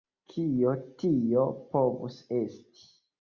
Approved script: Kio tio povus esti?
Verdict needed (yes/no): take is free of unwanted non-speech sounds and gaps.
yes